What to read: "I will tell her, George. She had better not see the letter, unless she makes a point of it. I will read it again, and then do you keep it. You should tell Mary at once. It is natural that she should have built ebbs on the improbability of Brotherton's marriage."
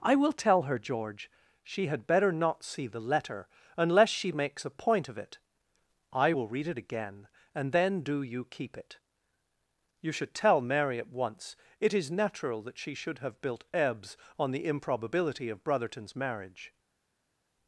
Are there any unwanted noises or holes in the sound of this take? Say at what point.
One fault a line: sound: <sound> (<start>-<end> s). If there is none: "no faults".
no faults